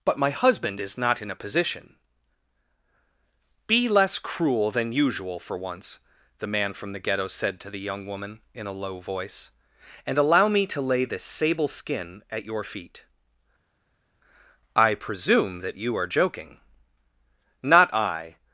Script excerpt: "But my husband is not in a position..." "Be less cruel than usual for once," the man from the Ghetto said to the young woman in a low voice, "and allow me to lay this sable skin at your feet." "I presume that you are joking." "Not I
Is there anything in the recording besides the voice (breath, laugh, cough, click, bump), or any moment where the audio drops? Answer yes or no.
no